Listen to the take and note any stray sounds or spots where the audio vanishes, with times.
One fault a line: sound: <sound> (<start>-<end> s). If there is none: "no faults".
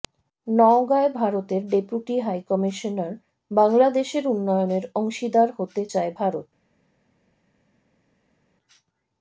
no faults